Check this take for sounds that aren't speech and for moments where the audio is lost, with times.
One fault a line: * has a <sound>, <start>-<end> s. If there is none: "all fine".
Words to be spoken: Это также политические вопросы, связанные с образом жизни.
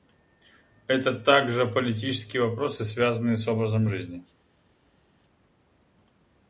all fine